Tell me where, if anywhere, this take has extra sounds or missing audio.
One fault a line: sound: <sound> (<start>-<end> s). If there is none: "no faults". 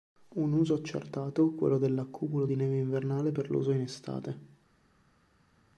no faults